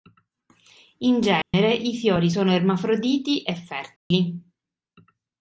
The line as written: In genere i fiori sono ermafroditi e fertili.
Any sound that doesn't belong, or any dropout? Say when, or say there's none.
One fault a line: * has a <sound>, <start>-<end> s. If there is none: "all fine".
* has a dropout, 1.4-1.5 s
* has a dropout, 4.0-4.1 s